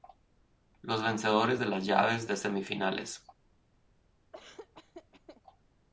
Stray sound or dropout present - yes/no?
yes